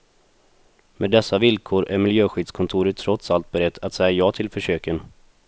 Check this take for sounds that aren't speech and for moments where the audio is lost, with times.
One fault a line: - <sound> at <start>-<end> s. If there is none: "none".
none